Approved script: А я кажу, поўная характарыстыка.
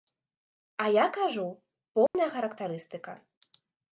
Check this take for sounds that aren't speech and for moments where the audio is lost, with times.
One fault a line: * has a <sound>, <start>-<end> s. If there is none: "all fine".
* has a dropout, 2.1-2.1 s